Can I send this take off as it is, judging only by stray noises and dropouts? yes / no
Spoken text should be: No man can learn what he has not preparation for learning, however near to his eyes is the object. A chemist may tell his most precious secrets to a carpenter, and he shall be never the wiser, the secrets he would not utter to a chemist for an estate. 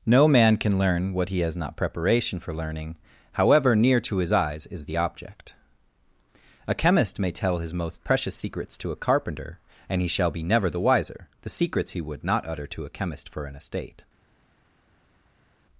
yes